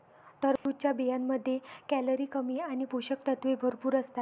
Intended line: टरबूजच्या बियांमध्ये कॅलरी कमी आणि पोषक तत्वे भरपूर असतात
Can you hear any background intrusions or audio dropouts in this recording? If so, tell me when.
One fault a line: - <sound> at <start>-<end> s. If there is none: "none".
- dropout at 0.6-0.7 s